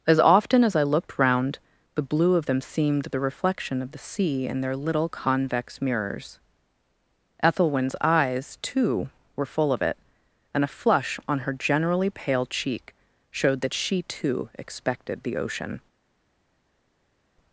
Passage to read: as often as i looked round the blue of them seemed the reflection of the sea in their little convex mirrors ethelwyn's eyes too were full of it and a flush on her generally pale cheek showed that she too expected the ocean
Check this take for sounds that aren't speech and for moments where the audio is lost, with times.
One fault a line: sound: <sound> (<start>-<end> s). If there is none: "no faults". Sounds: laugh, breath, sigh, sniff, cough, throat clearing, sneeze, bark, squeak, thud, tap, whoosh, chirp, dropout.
no faults